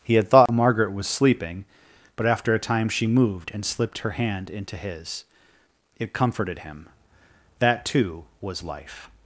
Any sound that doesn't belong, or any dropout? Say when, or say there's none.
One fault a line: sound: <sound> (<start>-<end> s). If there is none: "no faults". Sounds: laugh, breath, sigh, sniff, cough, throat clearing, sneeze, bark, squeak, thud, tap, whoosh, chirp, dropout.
sound: dropout (0.5-0.5 s)